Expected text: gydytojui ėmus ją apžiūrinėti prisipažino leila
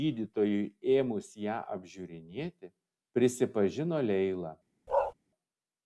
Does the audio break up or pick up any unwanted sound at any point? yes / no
yes